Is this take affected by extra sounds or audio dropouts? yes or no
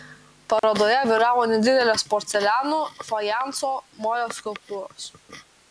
yes